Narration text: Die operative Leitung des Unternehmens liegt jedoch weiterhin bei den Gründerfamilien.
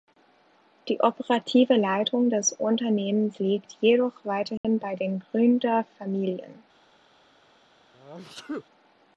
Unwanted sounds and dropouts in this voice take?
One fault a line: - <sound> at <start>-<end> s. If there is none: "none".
- dropout at 4.6-4.6 s
- sneeze at 7.9-8.7 s